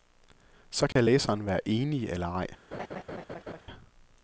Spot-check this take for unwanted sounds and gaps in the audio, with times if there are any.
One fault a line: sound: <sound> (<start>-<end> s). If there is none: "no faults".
sound: dropout (0.9-1.0 s)
sound: laugh (2.7-3.6 s)